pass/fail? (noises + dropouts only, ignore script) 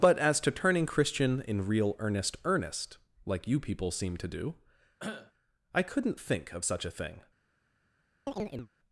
fail